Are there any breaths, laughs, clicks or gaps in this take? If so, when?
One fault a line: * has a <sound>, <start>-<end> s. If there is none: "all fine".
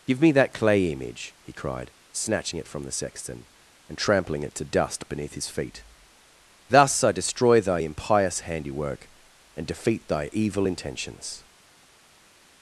all fine